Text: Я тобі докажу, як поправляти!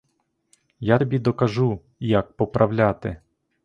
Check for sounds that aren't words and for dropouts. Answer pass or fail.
pass